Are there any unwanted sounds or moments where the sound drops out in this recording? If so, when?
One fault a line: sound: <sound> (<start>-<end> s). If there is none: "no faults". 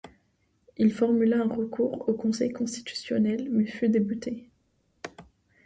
no faults